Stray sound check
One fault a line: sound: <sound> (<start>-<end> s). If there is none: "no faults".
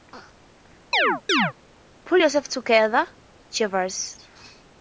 sound: chirp (0.9-1.5 s)